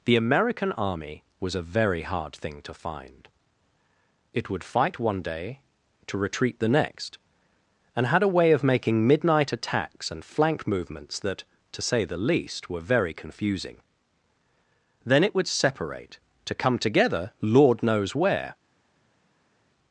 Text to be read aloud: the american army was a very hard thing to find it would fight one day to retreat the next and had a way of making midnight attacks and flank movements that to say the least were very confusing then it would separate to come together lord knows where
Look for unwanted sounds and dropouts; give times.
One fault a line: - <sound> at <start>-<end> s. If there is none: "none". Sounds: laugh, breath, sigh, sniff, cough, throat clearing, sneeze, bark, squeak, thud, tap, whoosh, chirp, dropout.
none